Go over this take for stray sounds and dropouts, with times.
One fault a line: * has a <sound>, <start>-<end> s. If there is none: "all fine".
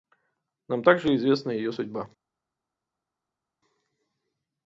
all fine